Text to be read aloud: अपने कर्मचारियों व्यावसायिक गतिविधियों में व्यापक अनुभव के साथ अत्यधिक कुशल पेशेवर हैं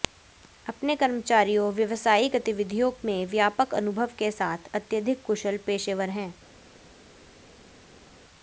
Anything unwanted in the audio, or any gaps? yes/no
no